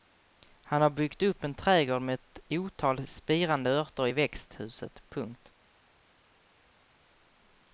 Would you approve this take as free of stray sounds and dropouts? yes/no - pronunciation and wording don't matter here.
yes